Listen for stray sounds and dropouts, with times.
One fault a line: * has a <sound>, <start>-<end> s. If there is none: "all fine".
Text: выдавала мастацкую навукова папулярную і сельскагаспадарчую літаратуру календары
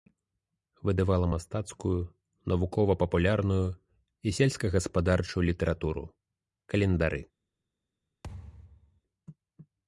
* has a thud, 8.2-9.0 s